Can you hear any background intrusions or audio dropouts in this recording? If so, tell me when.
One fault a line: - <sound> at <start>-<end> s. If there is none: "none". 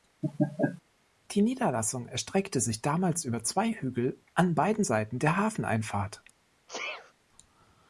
- laugh at 0.2-0.8 s
- sneeze at 6.7-7.1 s